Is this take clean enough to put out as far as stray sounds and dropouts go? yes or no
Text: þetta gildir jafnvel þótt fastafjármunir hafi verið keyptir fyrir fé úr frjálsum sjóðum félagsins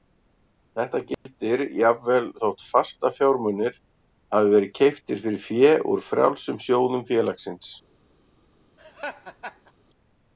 no